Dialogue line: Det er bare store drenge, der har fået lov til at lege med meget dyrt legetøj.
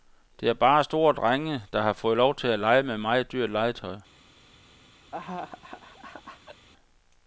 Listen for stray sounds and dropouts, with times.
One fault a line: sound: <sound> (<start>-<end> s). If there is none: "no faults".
sound: laugh (5.1-6.7 s)